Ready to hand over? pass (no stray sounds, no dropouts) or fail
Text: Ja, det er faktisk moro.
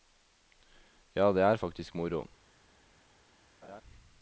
fail